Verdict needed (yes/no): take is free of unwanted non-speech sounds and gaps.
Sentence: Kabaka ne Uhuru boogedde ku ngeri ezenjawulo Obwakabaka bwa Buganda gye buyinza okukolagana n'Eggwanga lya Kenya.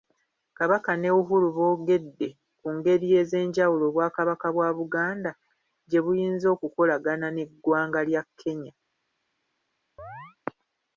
no